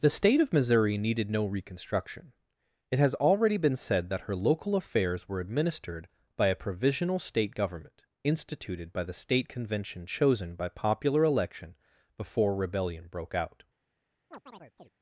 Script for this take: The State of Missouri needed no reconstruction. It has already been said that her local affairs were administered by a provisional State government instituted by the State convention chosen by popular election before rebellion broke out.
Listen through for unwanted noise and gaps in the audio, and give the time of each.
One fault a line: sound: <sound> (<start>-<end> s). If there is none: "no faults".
sound: chirp (14.3-14.9 s)